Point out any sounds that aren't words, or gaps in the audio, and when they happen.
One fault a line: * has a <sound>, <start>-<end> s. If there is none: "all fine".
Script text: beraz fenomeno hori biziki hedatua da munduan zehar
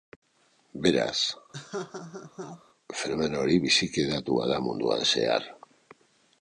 * has a laugh, 1.5-2.6 s